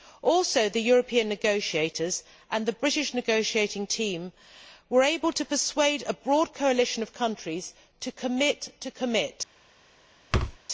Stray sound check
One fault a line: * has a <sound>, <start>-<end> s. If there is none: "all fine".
* has a thud, 10.3-10.6 s